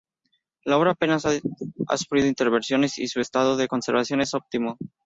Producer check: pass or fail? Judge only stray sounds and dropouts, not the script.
pass